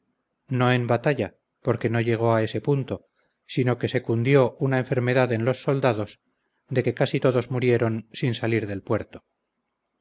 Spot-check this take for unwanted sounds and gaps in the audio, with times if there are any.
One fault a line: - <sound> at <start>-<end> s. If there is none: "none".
none